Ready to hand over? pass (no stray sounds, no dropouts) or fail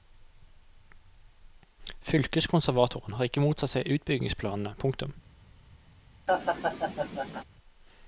fail